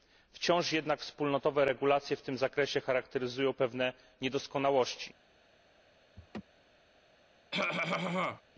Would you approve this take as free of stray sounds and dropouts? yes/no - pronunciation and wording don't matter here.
no